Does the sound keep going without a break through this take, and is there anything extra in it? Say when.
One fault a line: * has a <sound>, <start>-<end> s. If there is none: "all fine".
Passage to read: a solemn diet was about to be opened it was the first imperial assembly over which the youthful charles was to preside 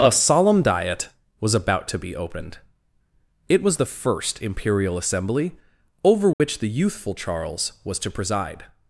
* has a dropout, 6.3-6.4 s